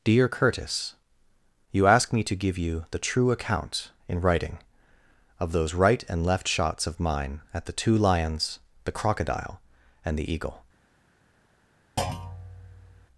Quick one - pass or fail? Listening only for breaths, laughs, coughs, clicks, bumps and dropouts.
fail